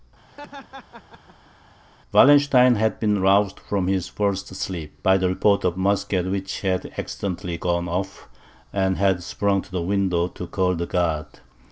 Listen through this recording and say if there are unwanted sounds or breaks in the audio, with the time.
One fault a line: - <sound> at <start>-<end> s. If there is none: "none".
- laugh at 0.3-1.5 s